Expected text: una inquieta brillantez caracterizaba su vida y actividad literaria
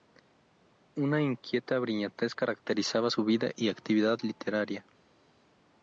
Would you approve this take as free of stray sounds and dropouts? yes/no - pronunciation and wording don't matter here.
yes